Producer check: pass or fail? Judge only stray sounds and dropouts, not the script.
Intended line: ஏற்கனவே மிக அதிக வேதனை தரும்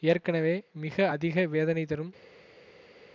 pass